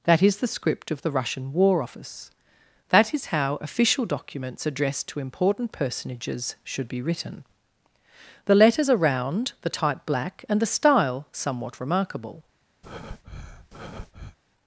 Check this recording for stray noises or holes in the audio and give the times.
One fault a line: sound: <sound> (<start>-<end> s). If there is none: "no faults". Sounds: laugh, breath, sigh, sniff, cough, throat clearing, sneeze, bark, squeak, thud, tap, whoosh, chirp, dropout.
sound: breath (12.8-14.4 s)